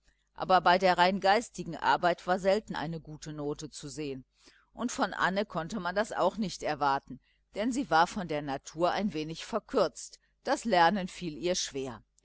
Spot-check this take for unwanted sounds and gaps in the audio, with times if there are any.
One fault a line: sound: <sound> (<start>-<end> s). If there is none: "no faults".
no faults